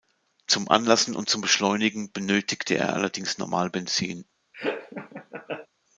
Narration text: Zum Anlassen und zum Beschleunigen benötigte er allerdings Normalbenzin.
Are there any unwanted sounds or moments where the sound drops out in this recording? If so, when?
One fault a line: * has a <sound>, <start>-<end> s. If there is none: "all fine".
* has a laugh, 4.5-5.7 s